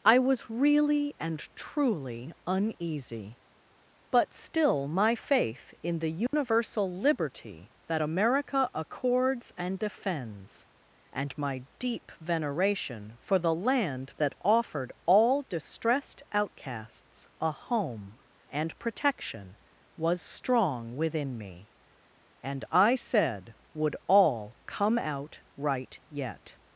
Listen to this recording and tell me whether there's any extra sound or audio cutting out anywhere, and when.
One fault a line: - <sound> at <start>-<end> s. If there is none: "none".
- dropout at 6.3-6.3 s